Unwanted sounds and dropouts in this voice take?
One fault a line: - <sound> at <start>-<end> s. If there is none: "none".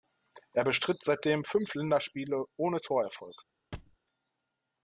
- thud at 3.7-4.0 s